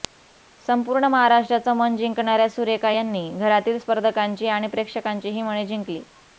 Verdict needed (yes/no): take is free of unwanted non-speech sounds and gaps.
yes